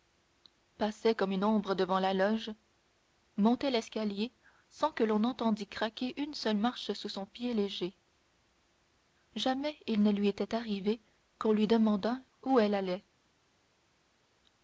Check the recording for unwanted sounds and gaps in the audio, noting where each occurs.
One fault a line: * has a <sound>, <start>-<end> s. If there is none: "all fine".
all fine